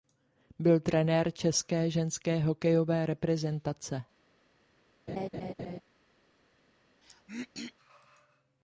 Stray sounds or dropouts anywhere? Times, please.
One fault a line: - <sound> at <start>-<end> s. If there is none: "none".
- laugh at 5.1-5.8 s
- throat clearing at 7.0-7.7 s